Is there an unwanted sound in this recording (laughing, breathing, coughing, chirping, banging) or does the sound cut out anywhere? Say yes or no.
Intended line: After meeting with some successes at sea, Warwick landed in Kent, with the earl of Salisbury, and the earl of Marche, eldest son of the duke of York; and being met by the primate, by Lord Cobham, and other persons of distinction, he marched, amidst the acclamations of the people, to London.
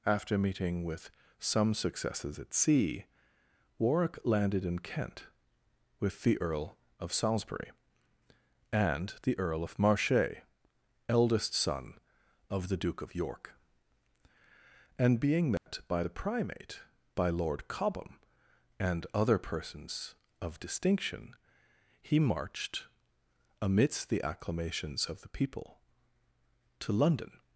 yes